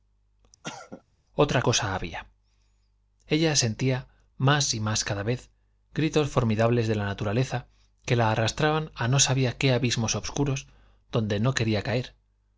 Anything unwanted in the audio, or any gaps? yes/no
yes